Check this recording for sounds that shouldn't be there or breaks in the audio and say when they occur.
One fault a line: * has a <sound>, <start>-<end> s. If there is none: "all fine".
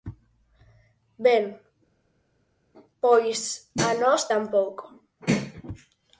all fine